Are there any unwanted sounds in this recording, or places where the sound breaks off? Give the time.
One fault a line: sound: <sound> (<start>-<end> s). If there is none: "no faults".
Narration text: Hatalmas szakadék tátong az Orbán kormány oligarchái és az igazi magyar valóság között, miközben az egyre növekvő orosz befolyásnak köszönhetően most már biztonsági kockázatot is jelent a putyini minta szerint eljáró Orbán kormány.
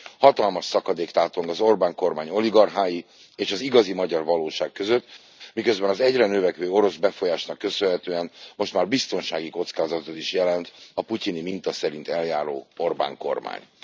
no faults